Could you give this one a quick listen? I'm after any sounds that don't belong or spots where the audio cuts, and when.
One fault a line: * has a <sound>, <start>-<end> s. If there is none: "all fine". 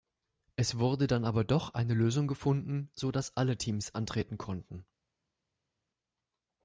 all fine